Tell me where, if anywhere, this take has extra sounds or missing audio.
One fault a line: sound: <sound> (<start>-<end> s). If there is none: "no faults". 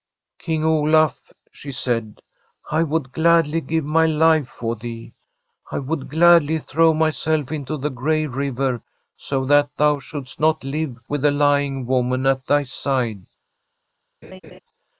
sound: laugh (14.2-14.6 s)